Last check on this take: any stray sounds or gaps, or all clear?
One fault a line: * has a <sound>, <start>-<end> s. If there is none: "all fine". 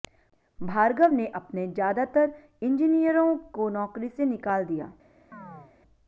* has a chirp, 5.3-5.7 s